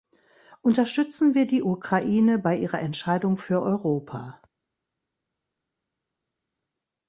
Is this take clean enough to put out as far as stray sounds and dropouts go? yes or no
yes